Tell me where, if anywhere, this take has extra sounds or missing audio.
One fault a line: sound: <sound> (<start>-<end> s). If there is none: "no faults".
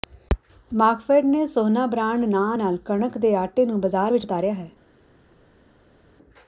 no faults